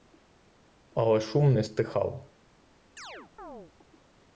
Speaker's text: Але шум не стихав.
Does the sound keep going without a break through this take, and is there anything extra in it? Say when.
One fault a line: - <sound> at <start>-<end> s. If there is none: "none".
- chirp at 3.0-3.7 s